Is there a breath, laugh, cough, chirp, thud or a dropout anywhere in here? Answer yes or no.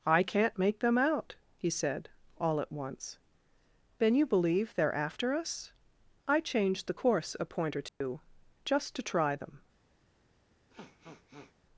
yes